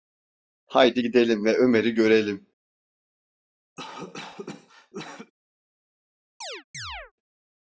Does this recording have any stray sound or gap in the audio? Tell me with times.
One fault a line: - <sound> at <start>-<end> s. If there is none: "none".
- cough at 3.8-5.3 s
- chirp at 6.4-7.1 s